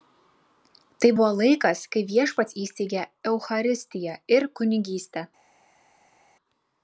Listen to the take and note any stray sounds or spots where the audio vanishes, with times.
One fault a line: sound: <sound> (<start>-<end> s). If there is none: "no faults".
no faults